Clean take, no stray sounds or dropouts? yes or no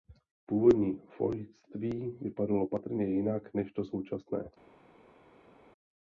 yes